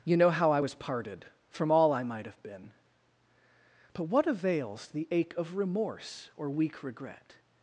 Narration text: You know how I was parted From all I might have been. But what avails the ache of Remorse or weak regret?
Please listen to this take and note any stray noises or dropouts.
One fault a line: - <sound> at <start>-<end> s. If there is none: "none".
none